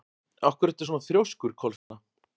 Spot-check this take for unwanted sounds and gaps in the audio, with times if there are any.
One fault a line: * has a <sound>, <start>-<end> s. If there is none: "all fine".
* has a dropout, 1.8-1.9 s